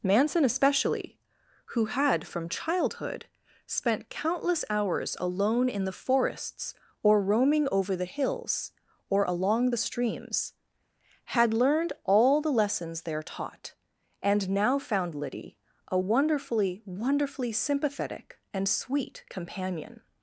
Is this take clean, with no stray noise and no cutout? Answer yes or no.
yes